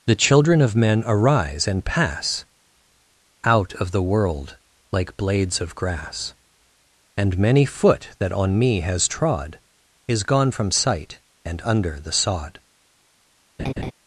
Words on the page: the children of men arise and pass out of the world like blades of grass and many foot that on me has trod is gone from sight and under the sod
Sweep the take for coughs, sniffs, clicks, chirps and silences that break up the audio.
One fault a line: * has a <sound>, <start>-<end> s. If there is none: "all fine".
* has a laugh, 13.6-13.9 s